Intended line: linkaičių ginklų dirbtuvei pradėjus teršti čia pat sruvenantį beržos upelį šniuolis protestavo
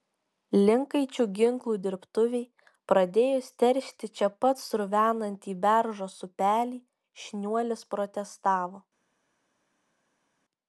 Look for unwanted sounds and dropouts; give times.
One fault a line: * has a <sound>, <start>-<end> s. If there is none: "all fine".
all fine